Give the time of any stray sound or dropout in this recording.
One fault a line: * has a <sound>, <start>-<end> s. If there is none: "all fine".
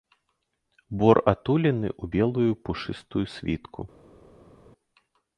all fine